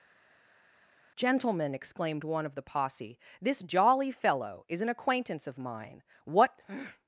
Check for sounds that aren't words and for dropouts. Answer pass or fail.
pass